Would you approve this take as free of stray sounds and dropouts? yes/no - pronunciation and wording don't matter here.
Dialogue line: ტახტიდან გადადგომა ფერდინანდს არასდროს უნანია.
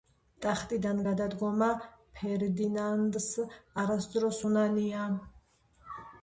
yes